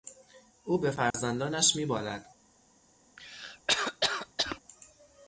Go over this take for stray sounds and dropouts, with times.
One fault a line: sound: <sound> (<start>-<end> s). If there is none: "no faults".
sound: dropout (1.1-1.1 s)
sound: cough (3.2-4.6 s)